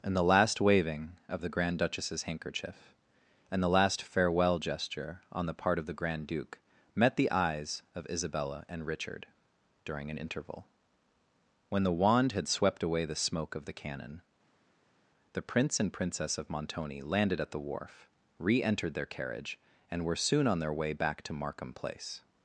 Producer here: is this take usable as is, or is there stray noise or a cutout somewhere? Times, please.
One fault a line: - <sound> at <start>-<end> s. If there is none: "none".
none